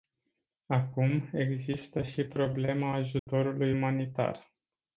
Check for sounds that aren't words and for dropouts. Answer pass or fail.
fail